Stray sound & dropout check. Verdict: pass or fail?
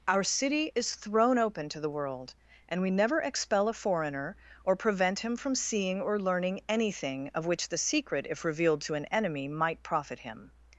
pass